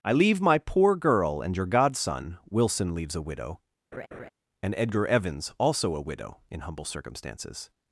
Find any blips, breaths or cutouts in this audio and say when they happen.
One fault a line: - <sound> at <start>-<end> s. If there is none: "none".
- laugh at 3.9-4.3 s